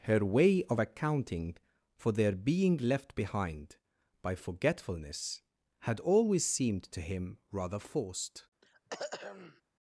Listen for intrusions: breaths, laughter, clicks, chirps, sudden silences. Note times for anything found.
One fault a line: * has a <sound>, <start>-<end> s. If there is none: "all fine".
* has a throat clearing, 8.6-9.6 s